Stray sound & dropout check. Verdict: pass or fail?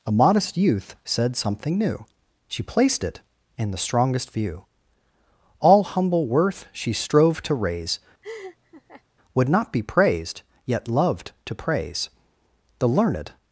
fail